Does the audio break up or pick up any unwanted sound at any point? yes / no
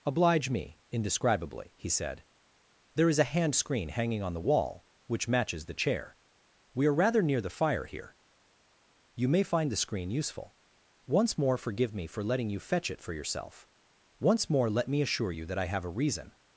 no